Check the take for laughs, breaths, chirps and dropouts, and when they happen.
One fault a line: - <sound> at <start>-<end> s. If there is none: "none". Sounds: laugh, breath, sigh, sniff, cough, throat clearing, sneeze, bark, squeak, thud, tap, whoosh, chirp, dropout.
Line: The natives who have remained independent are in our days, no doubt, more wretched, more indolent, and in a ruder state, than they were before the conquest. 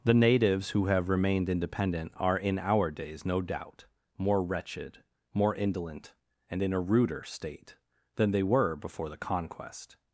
none